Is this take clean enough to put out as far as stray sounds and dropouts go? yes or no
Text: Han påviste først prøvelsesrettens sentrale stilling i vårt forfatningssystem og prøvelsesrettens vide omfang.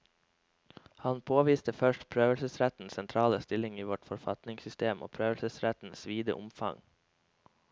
yes